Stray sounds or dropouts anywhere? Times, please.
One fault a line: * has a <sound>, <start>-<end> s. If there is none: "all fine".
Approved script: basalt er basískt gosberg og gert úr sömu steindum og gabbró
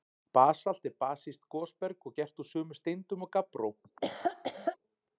* has a laugh, 3.8-4.8 s